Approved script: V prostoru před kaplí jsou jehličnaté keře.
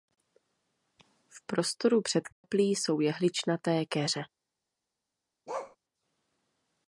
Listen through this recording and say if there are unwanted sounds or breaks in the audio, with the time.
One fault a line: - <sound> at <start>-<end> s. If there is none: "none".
- dropout at 2.3-2.4 s
- bark at 5.5-5.8 s